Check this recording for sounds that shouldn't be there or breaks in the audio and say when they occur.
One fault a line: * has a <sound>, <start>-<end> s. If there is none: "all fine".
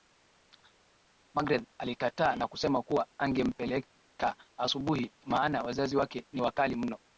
all fine